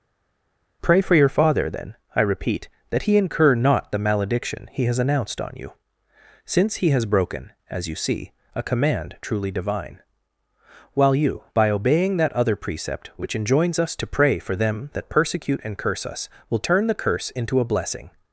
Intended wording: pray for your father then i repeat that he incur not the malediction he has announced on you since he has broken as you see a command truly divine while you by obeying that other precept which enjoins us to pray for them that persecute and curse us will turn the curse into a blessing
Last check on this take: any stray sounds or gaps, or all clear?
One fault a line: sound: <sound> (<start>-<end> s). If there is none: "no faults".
no faults